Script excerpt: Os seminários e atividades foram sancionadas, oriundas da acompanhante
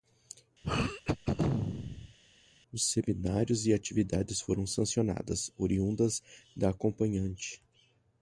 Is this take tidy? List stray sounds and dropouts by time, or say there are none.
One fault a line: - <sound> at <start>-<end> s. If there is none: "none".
- throat clearing at 0.6-2.2 s